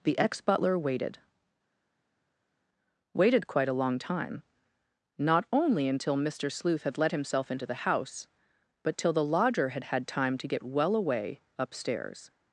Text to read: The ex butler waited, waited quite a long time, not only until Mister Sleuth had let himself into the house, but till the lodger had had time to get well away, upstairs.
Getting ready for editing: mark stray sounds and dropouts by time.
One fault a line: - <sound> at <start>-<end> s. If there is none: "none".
none